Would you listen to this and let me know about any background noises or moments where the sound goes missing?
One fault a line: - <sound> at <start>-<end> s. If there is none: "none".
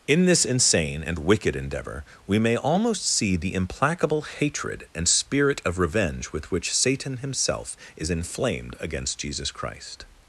none